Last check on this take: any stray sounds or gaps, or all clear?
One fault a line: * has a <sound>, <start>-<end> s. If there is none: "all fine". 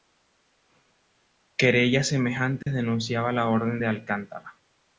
* has a dropout, 2.6-2.7 s